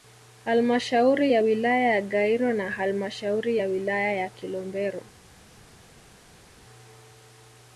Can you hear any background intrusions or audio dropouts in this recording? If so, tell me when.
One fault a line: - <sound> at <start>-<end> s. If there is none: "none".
none